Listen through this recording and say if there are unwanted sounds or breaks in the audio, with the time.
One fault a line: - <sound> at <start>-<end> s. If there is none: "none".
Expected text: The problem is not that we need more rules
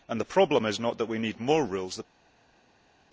none